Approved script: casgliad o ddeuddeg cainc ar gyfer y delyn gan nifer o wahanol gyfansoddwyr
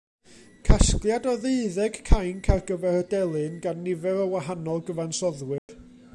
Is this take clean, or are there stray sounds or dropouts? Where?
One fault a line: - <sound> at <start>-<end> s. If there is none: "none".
- dropout at 5.6-5.7 s